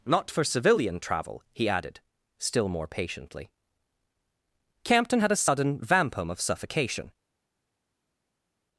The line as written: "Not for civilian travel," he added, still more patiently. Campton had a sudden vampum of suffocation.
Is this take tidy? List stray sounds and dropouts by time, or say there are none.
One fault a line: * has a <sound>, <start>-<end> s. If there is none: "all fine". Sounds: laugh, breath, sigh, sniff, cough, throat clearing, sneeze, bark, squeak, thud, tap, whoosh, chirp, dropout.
all fine